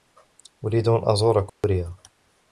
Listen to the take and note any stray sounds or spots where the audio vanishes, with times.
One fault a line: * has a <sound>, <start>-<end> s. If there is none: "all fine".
* has a dropout, 1.5-1.6 s